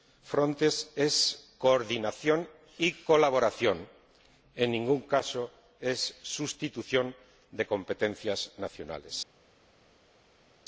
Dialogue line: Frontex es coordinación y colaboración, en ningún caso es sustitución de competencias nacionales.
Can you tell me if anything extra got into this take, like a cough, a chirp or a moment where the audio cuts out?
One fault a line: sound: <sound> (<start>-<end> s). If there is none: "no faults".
no faults